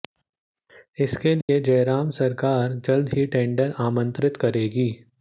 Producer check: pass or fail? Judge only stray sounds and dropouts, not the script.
fail